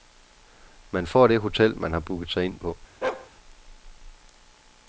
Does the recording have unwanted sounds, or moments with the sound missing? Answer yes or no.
yes